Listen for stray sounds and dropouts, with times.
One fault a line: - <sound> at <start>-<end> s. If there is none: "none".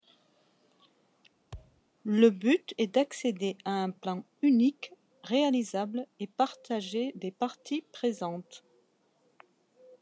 - thud at 1.5-1.8 s